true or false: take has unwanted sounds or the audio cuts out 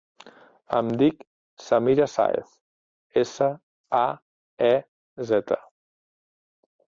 false